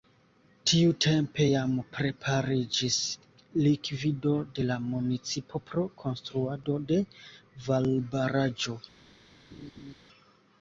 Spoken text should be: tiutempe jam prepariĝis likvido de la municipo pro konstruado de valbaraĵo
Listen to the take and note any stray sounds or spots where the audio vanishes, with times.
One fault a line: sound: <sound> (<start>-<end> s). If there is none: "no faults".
sound: laugh (9.5-10.0 s)